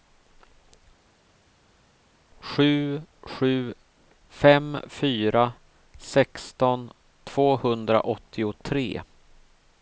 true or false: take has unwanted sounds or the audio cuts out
false